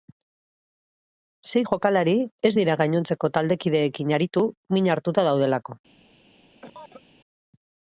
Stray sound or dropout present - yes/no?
yes